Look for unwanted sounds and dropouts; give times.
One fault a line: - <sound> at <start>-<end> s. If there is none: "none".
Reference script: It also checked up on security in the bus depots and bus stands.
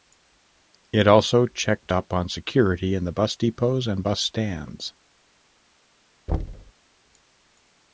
- thud at 6.3-6.7 s